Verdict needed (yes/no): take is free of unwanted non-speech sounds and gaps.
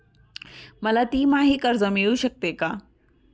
yes